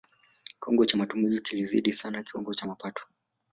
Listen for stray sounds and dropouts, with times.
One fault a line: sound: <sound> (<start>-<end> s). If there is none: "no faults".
no faults